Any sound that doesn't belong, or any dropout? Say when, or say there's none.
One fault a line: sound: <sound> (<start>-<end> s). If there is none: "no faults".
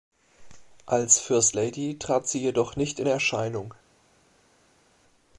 no faults